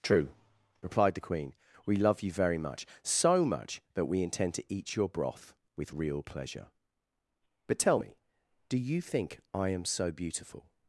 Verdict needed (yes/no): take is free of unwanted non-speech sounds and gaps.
yes